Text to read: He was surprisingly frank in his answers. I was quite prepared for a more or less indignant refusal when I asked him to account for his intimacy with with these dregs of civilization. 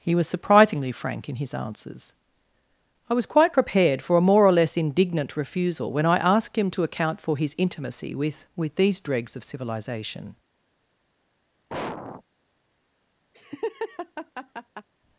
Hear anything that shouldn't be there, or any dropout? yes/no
yes